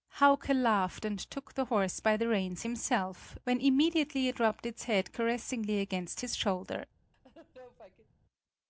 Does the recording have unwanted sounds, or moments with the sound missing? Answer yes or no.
yes